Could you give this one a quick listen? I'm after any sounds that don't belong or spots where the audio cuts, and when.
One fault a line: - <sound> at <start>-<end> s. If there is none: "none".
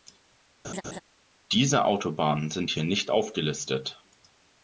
- laugh at 0.6-1.0 s